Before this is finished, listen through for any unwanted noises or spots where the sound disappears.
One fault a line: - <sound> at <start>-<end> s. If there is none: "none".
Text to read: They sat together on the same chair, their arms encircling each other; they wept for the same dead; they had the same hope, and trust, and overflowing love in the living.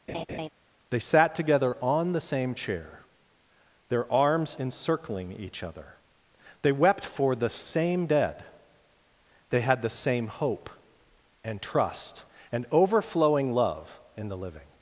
- laugh at 0.1-0.5 s